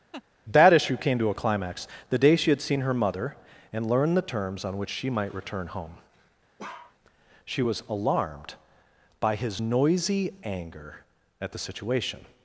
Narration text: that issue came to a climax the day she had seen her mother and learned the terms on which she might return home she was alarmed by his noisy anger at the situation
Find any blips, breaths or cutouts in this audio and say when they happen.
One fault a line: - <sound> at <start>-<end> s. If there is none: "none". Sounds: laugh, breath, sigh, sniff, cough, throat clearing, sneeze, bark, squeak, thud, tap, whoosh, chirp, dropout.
- laugh at 0.1-0.2 s
- bark at 6.6-7.0 s